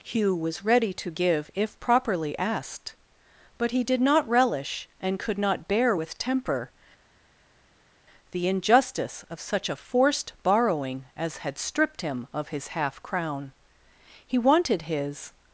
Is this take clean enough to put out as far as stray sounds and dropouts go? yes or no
yes